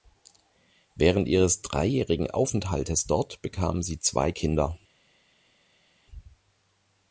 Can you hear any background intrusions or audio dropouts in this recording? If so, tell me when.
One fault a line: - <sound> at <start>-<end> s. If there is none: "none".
none